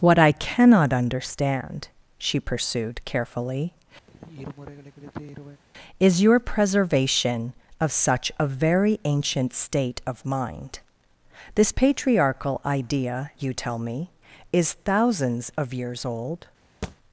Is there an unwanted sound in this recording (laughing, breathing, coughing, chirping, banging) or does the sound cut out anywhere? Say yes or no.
yes